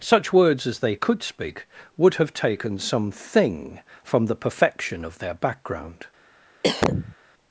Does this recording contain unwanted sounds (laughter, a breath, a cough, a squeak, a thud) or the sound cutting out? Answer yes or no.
yes